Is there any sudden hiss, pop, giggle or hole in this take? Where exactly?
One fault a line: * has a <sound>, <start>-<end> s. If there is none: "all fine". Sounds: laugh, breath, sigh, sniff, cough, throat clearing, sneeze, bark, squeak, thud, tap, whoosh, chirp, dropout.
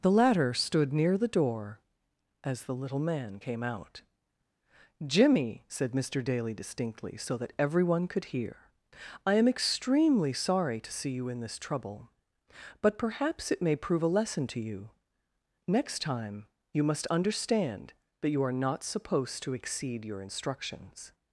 all fine